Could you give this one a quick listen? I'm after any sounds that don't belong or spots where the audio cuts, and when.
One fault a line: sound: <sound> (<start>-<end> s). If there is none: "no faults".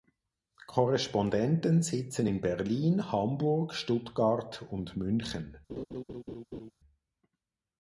sound: laugh (5.7-6.7 s)